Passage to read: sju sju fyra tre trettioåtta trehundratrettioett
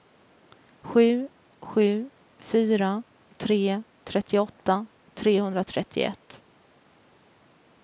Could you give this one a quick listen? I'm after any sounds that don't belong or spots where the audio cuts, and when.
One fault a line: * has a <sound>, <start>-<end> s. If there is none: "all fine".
all fine